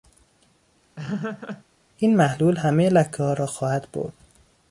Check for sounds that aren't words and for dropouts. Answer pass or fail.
fail